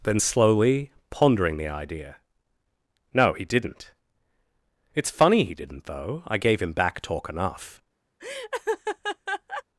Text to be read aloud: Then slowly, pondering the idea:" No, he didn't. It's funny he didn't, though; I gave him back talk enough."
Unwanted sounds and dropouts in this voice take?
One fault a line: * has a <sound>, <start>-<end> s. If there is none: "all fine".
* has a laugh, 8.2-9.6 s